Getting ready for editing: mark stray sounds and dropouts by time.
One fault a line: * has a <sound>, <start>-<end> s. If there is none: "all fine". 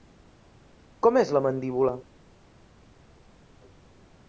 all fine